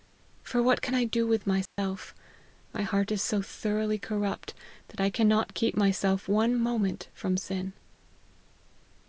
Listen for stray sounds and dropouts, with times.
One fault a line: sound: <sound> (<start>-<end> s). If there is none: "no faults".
sound: dropout (1.7-1.8 s)